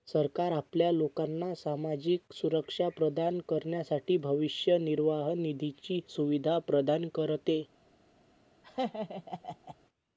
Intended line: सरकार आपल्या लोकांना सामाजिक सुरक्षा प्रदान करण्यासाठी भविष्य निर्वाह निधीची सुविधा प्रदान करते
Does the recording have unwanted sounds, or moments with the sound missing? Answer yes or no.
yes